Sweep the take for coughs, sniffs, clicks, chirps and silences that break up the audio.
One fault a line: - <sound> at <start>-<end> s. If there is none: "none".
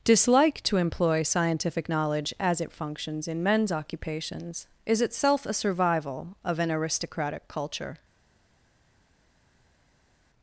none